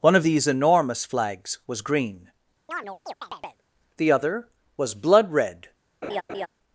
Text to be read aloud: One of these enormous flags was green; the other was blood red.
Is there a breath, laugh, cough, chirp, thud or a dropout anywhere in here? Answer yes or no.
yes